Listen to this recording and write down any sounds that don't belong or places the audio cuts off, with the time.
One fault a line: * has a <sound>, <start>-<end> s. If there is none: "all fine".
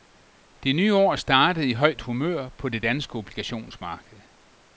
all fine